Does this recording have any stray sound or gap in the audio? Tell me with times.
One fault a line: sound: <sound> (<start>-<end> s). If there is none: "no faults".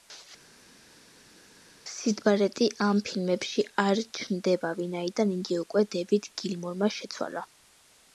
no faults